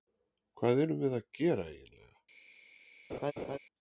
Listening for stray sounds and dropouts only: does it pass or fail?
fail